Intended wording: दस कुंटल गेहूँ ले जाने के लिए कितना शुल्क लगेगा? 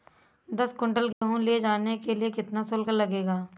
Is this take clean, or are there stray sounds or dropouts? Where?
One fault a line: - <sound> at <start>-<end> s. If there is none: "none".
- dropout at 1.1-1.2 s